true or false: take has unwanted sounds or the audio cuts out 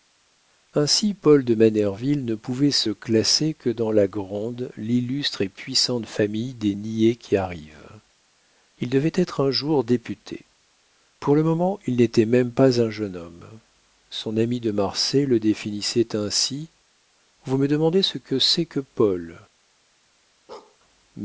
true